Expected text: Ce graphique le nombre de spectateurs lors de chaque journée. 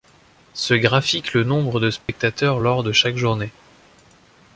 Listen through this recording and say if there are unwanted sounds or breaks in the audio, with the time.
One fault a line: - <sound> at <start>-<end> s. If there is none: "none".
- dropout at 2.0-2.1 s